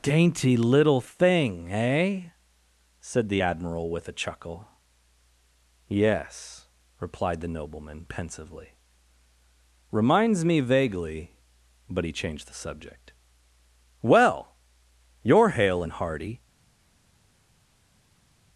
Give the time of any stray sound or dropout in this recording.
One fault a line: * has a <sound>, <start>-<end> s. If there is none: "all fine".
all fine